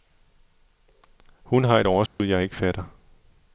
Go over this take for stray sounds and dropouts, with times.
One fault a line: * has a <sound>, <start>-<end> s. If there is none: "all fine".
* has a dropout, 2.1-2.2 s